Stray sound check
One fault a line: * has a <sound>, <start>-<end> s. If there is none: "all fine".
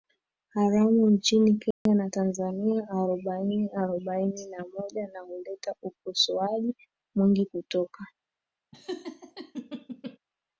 * has a dropout, 1.7-1.9 s
* has a laugh, 8.7-10.2 s